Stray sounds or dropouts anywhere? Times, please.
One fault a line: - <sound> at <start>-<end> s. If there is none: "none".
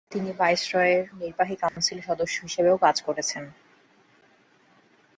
- dropout at 1.7-1.8 s